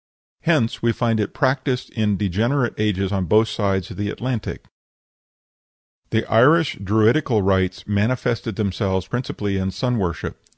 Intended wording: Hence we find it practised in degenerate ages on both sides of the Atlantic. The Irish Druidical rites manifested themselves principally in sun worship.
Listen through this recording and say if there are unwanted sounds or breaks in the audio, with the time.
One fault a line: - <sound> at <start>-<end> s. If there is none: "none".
none